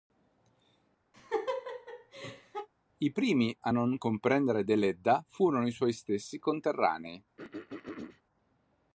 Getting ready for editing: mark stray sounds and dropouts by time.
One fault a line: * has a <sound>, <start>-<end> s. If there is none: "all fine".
* has a laugh, 1.1-2.7 s
* has a throat clearing, 7.4-8.2 s